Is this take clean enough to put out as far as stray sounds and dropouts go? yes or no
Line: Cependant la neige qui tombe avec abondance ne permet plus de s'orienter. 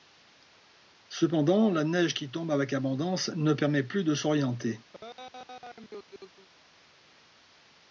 no